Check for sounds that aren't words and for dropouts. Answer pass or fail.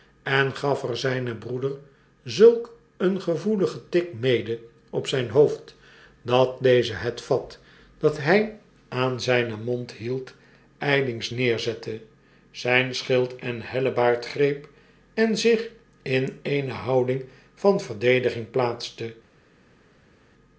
pass